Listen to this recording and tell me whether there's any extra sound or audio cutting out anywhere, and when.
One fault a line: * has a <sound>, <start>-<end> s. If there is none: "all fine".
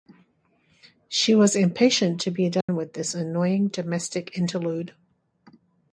* has a dropout, 2.6-2.7 s